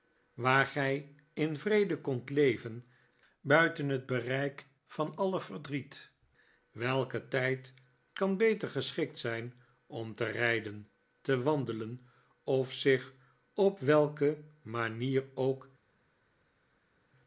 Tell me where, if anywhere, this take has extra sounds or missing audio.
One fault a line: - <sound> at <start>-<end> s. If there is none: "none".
none